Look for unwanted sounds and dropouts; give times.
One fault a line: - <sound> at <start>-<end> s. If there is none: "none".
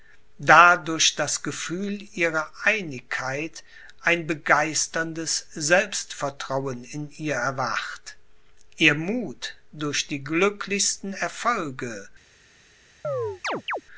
- chirp at 13.0-13.8 s